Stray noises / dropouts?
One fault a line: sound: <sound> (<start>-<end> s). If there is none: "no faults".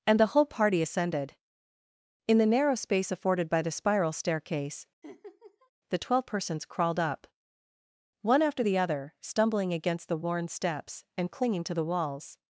sound: laugh (5.0-5.7 s)